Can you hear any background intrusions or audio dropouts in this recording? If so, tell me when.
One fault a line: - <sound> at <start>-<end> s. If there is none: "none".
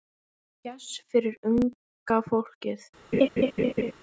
- laugh at 3.1-3.9 s